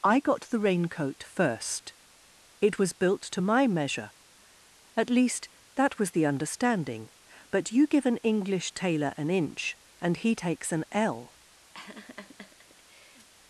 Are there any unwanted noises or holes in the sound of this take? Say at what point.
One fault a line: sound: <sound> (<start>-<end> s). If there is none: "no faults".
sound: laugh (11.7-13.3 s)